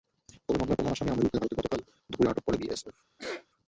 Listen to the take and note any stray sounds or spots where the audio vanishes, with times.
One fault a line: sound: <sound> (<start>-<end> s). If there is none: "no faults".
sound: sneeze (3.2-3.5 s)